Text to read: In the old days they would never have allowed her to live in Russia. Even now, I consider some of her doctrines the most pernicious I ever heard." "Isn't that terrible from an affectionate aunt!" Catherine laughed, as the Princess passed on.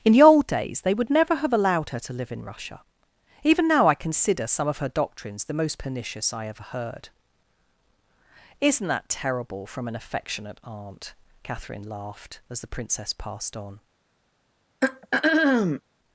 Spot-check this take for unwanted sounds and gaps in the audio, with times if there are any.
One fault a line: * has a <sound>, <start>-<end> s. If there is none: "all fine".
* has a throat clearing, 14.8-15.8 s